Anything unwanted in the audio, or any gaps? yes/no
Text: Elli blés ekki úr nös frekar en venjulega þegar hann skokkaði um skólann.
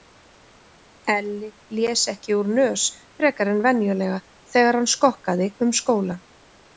no